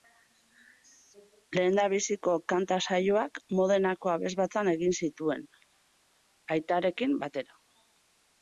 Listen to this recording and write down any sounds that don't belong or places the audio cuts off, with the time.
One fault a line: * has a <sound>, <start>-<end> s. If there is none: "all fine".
all fine